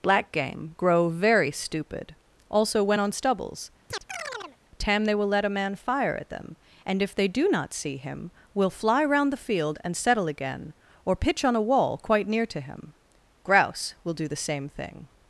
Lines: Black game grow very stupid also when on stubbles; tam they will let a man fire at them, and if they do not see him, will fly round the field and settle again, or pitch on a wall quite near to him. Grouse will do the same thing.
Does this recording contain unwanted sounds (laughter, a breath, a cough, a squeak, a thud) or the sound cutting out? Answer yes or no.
yes